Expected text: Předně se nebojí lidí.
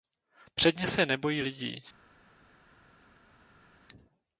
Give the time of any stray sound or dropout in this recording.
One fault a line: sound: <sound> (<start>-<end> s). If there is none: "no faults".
no faults